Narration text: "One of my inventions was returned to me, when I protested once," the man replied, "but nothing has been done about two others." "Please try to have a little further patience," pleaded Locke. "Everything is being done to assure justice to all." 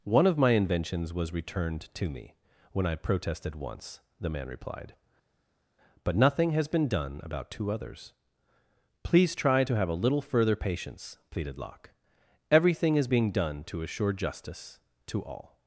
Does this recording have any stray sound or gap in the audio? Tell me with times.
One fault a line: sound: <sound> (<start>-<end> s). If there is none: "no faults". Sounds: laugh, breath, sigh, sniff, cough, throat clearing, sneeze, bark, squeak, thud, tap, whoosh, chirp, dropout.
no faults